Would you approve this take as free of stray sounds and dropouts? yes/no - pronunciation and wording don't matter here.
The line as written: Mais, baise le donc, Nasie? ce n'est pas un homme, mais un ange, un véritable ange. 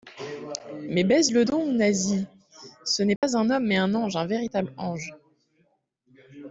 no